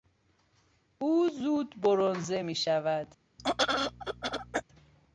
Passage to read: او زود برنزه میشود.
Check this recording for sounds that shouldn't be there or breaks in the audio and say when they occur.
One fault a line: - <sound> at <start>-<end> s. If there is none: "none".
- throat clearing at 3.4-4.6 s